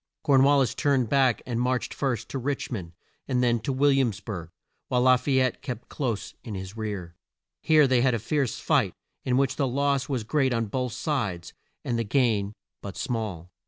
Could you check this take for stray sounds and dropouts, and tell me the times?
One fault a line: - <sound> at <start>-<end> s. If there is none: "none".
none